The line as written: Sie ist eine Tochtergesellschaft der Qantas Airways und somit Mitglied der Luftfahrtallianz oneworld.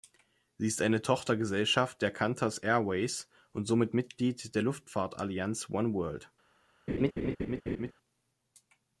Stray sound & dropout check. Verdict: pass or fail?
fail